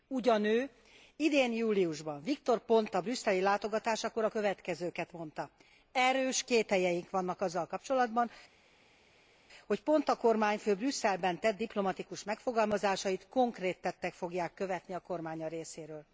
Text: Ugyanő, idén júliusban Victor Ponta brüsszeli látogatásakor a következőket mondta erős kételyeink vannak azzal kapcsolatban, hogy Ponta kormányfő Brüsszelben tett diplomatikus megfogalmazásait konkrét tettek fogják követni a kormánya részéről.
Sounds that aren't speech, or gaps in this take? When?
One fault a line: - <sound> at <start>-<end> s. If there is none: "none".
none